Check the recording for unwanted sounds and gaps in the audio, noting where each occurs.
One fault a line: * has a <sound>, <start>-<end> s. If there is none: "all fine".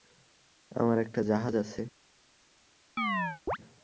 * has a chirp, 3.0-3.6 s